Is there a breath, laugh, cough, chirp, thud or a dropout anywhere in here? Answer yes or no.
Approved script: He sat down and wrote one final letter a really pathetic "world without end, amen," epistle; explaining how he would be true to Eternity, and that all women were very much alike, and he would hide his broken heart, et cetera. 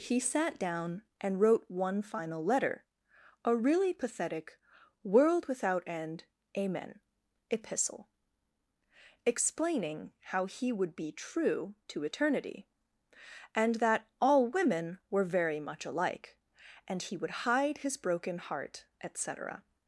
no